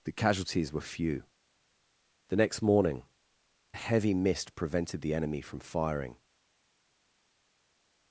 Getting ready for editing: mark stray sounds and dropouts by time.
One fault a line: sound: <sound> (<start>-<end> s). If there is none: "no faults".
no faults